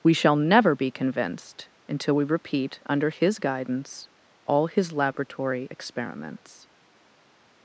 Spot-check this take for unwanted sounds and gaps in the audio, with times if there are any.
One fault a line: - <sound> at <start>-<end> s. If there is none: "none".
none